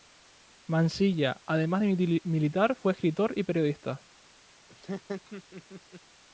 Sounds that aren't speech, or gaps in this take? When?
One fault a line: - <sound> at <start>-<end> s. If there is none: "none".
- laugh at 4.7-6.0 s